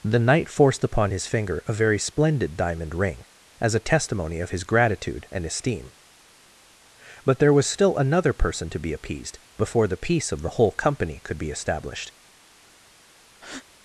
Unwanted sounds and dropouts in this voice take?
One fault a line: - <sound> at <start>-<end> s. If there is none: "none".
- breath at 13.3-13.7 s